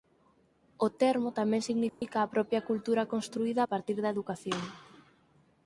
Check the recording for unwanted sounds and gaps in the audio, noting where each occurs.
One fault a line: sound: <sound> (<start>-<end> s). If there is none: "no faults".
sound: dropout (1.9-2.0 s)